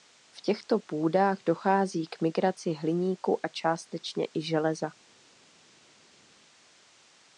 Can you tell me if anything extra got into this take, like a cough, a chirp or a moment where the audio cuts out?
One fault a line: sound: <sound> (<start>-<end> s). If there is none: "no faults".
no faults